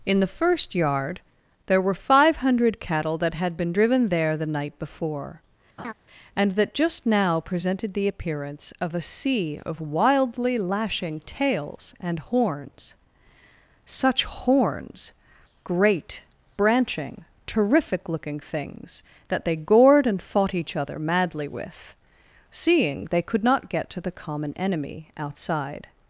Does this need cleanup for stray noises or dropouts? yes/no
yes